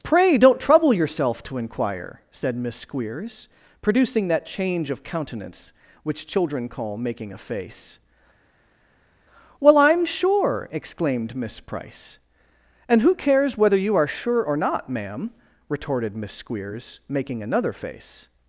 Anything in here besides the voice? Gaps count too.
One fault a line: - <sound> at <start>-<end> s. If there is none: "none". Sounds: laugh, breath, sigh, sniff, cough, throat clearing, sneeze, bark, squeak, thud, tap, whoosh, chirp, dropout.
none